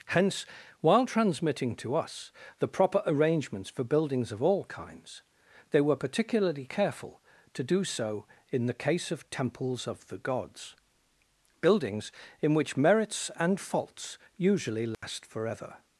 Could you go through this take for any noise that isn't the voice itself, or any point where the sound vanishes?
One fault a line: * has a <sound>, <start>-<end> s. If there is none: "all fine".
* has a dropout, 14.9-15.0 s